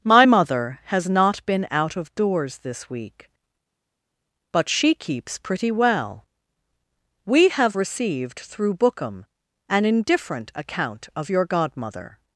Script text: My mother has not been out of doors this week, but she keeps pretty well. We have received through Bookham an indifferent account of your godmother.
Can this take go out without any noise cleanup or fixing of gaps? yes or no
yes